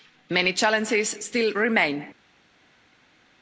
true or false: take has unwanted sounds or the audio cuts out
false